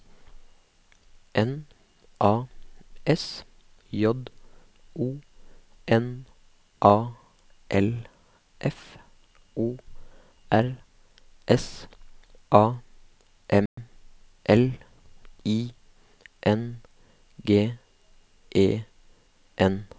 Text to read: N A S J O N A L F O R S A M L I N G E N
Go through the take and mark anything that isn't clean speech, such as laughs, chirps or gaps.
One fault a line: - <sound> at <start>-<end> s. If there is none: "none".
- dropout at 13.7-13.8 s